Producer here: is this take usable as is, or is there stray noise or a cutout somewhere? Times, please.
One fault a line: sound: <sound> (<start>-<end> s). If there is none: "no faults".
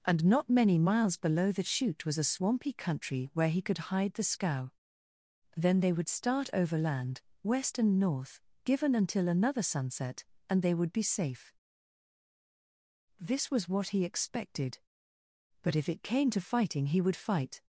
no faults